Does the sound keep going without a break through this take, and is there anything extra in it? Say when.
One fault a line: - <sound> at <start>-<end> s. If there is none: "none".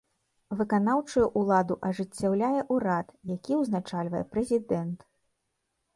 none